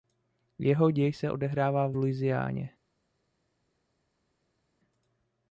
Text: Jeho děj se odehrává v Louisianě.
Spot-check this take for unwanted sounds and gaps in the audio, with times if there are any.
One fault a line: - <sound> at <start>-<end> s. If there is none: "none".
none